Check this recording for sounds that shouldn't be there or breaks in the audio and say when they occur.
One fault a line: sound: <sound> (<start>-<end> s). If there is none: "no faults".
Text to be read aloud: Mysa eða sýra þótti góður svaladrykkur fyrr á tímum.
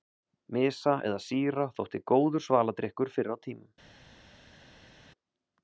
no faults